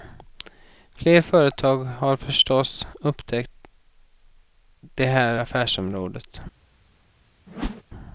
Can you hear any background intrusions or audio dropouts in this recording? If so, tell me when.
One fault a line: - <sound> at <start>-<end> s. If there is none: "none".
- whoosh at 7.5-7.8 s